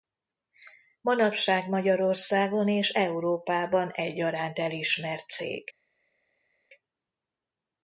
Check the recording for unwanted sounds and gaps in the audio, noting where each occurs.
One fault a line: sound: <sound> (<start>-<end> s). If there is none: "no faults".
no faults